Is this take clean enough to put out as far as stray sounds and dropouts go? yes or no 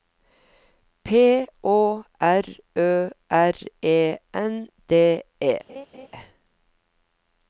no